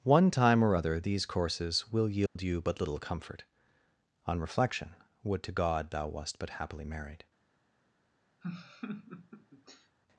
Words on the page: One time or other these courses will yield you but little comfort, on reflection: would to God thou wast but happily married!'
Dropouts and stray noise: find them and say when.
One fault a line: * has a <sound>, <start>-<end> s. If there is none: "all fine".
* has a dropout, 2.3-2.4 s
* has a laugh, 8.4-10.0 s